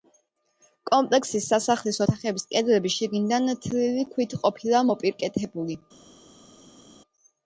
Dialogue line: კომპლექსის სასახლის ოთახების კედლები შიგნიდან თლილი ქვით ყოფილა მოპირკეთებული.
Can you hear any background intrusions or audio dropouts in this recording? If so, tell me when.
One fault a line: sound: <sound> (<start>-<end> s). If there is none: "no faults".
no faults